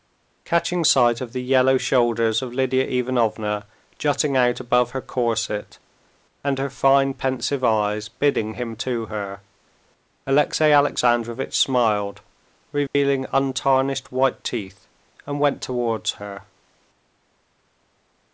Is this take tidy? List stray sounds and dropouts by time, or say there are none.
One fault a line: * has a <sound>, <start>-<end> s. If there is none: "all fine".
* has a dropout, 12.9-13.0 s